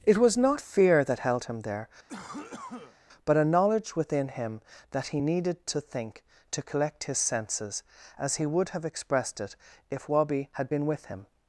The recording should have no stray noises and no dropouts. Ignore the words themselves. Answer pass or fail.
fail